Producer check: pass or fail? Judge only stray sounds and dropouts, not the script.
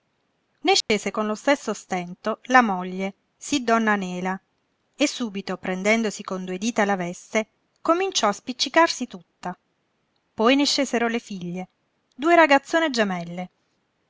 fail